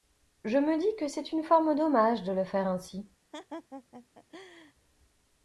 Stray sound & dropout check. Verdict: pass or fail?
fail